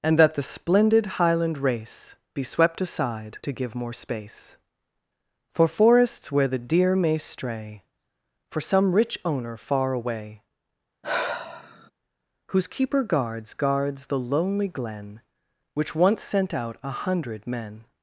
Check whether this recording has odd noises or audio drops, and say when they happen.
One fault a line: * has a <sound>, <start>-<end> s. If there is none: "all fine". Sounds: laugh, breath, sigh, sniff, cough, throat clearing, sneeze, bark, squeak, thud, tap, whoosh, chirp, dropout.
* has a sigh, 11.0-11.9 s